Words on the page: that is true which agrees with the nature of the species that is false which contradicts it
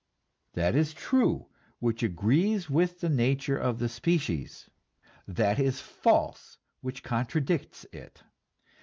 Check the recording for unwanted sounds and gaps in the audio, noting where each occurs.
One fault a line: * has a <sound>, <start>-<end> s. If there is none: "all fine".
all fine